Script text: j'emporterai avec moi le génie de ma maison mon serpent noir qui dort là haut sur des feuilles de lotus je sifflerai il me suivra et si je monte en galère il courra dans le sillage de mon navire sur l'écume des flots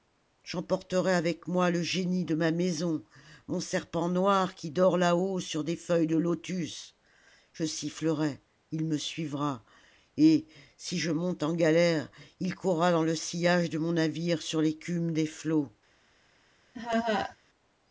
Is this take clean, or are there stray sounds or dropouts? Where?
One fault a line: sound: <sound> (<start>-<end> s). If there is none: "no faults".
sound: laugh (16.7-17.4 s)